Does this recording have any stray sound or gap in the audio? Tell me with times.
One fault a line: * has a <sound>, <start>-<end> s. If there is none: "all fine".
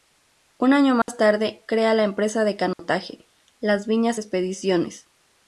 * has a dropout, 1.0-1.1 s
* has a dropout, 2.7-2.8 s